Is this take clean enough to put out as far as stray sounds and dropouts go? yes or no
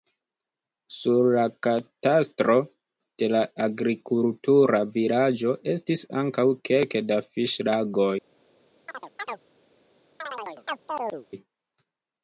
no